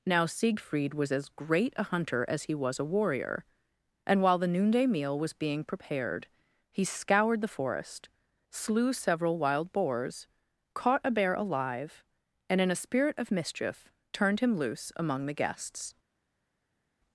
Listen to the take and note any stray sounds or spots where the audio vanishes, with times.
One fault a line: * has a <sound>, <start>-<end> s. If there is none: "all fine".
all fine